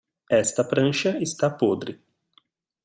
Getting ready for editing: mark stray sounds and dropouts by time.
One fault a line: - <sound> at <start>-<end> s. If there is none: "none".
none